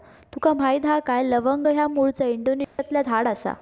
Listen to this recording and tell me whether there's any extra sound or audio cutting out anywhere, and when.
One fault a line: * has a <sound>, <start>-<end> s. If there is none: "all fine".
* has a dropout, 2.6-2.8 s